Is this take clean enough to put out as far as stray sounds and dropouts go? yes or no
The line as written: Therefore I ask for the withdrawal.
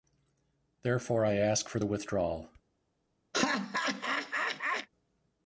no